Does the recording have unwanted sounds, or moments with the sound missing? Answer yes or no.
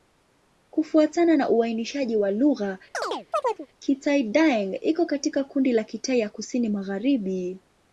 yes